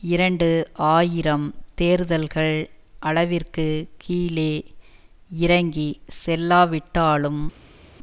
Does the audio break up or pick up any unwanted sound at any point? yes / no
no